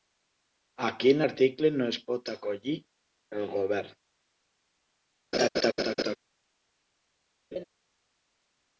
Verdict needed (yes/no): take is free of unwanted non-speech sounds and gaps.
no